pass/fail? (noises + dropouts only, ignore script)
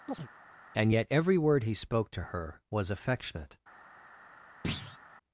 fail